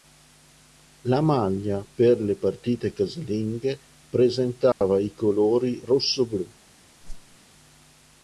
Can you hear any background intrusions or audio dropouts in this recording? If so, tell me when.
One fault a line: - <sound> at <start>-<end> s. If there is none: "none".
- dropout at 4.7-4.8 s
- whoosh at 7.0-7.4 s